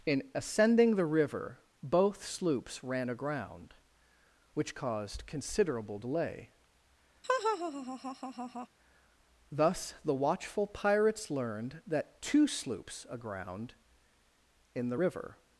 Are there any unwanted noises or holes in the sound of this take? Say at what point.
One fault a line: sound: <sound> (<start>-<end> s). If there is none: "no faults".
sound: laugh (7.2-8.7 s)